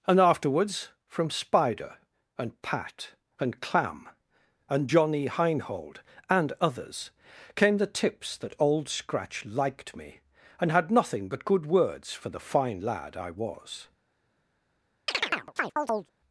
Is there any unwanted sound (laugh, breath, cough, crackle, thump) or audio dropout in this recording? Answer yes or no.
yes